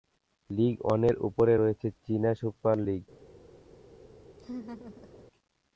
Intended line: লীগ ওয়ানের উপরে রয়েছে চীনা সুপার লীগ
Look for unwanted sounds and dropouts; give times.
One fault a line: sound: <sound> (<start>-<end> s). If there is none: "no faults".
sound: laugh (4.4-5.2 s)